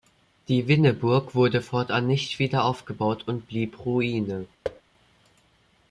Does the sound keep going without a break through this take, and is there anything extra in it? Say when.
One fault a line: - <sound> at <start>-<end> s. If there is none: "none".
- thud at 4.6-4.8 s